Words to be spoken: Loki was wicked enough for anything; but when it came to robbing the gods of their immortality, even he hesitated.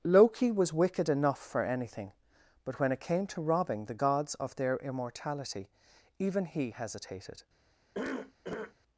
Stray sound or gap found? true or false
true